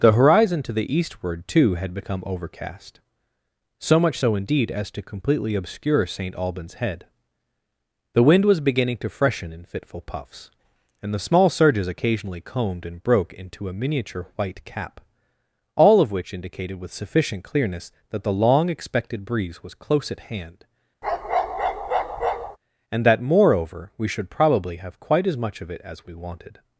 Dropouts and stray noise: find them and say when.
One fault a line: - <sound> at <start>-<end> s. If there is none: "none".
- bark at 21.0-22.6 s